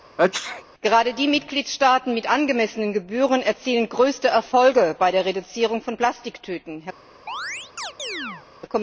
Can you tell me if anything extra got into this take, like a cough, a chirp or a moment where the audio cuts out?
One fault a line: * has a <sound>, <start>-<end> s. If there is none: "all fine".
* has a sneeze, 0.2-0.6 s
* has a chirp, 7.3-8.5 s